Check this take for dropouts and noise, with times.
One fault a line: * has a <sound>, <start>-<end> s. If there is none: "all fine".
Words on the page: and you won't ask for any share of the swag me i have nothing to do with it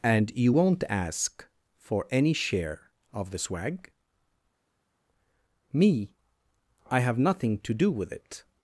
all fine